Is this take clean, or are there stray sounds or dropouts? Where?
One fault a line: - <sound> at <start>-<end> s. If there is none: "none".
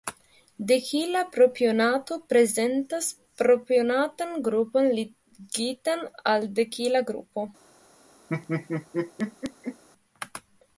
- laugh at 8.3-9.8 s